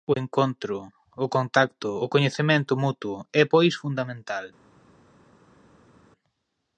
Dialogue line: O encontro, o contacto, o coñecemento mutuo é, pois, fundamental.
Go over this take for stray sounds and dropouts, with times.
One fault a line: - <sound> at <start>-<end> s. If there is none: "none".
none